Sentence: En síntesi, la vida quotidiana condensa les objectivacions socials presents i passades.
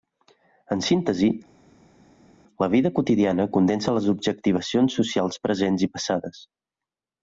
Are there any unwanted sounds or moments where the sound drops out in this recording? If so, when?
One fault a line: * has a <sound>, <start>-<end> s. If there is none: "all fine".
all fine